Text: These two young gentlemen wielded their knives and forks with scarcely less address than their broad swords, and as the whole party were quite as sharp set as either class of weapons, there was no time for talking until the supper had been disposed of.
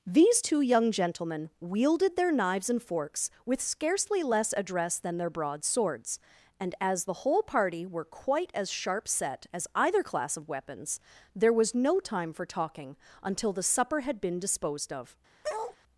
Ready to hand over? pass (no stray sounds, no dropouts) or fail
fail